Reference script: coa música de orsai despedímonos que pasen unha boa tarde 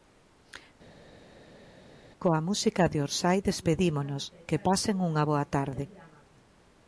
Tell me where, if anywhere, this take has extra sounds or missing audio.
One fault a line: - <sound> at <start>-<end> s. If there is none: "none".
none